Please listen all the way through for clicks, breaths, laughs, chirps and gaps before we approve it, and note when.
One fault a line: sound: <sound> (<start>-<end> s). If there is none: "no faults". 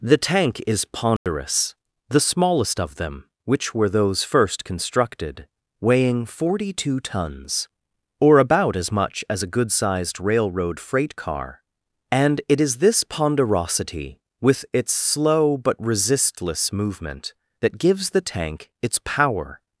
sound: dropout (1.2-1.3 s)